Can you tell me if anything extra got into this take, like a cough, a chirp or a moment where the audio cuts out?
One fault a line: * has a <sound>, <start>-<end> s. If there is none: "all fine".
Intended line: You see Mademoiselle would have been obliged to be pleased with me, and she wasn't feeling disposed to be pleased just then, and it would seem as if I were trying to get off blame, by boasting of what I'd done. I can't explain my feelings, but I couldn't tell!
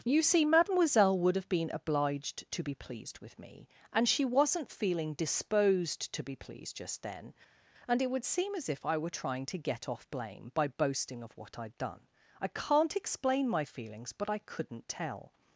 all fine